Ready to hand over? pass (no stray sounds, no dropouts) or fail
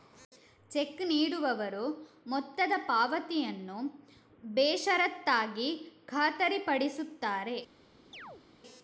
fail